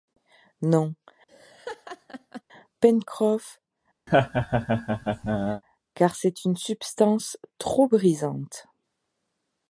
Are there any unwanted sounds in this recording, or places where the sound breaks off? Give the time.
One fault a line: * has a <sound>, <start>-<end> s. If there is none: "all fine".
* has a laugh, 1.3-2.4 s
* has a laugh, 4.1-5.6 s